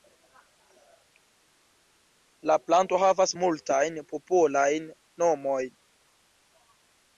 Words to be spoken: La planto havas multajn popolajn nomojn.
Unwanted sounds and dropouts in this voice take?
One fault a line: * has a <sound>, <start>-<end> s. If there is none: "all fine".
all fine